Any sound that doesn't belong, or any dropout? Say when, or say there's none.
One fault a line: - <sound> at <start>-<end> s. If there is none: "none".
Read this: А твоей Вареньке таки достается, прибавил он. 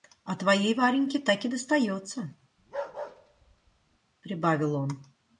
- bark at 2.6-4.0 s